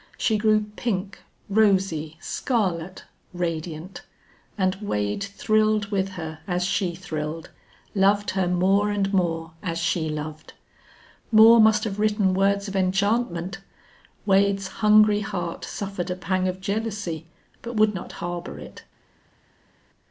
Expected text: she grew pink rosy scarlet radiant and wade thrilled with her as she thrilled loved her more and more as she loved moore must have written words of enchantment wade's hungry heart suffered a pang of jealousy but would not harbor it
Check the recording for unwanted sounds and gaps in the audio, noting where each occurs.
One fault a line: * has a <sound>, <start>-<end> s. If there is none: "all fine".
all fine